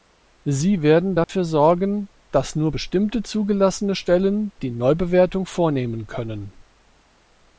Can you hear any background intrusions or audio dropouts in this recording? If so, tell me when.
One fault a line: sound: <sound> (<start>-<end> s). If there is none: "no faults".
sound: dropout (1.2-1.3 s)